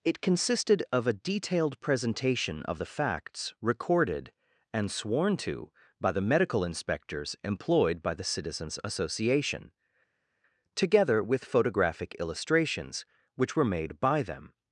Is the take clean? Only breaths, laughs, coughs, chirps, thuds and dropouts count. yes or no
yes